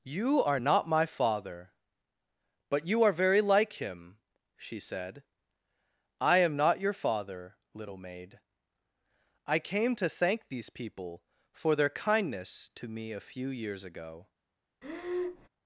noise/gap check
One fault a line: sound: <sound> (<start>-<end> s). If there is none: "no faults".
sound: breath (14.8-15.5 s)